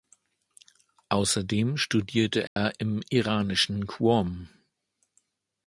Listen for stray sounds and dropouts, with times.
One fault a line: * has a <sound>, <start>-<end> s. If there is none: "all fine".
* has a dropout, 2.5-2.6 s